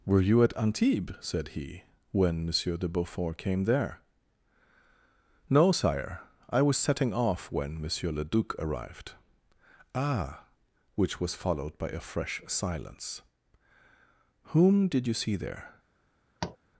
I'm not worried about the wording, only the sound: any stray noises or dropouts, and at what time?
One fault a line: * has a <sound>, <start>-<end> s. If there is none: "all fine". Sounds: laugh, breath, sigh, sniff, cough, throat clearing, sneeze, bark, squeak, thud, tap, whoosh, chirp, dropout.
* has a tap, 16.4-16.6 s